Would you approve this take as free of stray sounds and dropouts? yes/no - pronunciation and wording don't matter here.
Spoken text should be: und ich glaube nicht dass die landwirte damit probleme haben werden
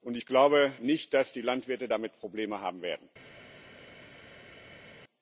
yes